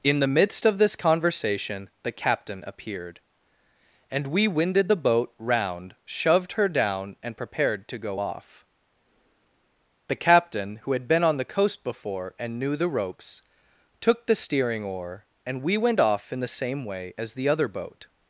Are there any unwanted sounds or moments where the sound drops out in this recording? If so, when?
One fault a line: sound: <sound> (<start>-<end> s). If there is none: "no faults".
no faults